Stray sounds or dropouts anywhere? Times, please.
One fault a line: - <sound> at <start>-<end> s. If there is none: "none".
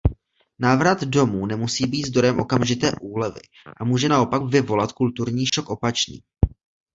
- dropout at 5.5-5.5 s